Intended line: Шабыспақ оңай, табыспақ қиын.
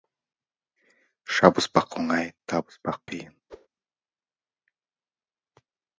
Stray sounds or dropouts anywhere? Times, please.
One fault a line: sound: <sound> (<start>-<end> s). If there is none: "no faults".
sound: whoosh (3.5-3.7 s)